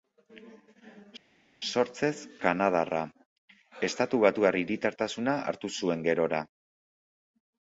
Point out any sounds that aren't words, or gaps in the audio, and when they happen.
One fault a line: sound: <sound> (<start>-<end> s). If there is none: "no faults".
no faults